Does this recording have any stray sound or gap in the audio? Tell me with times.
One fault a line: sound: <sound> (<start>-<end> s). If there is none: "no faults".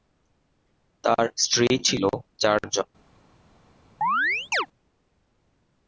sound: chirp (4.0-4.7 s)